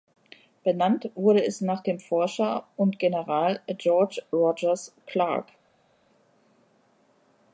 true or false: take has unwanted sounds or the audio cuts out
false